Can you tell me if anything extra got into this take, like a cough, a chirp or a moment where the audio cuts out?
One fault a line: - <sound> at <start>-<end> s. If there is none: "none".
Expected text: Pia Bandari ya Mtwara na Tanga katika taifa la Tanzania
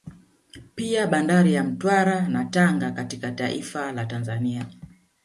none